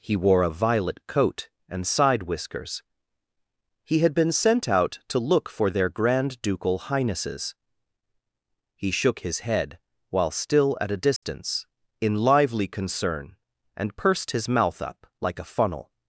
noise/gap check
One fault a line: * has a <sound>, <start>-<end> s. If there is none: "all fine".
* has a dropout, 11.2-11.2 s